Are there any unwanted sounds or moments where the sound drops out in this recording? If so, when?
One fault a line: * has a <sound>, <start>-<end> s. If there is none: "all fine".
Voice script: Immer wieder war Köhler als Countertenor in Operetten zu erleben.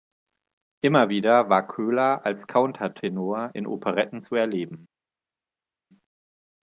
all fine